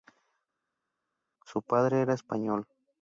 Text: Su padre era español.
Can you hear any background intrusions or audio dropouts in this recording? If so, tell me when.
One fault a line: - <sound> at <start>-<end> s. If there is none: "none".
none